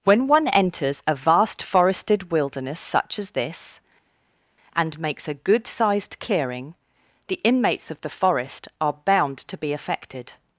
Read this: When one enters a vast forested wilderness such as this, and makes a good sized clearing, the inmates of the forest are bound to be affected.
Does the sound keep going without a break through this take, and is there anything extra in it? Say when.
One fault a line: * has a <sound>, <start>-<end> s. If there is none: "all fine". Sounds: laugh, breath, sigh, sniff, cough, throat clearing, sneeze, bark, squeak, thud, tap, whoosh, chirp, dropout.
all fine